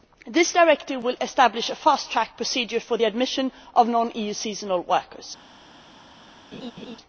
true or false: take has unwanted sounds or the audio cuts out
true